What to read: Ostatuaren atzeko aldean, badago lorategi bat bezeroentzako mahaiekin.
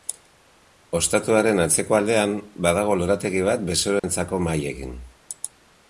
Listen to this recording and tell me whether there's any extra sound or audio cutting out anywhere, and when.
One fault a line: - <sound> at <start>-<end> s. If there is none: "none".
- dropout at 4.0-4.0 s